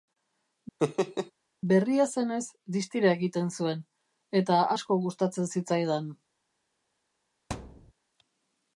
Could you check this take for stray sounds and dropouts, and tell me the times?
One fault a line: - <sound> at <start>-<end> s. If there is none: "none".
- laugh at 0.8-1.3 s
- thud at 7.5-7.9 s